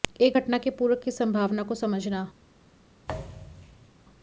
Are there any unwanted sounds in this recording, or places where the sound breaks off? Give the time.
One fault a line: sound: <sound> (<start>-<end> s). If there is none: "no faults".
sound: thud (3.1-3.9 s)